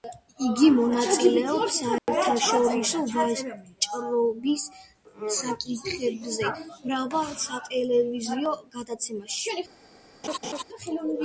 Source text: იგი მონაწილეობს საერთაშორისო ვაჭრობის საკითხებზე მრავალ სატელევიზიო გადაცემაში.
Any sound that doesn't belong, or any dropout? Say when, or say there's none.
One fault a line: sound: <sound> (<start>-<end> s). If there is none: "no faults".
sound: dropout (2.0-2.1 s)
sound: laugh (10.2-10.6 s)